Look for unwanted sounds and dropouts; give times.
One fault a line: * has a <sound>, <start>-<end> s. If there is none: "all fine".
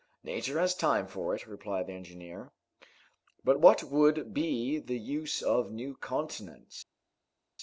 all fine